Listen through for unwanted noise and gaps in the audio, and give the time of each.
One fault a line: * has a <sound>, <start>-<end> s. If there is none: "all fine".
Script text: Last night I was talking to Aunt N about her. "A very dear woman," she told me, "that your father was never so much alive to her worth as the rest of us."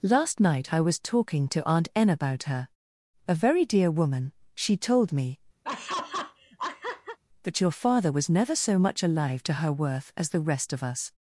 * has a laugh, 5.6-7.2 s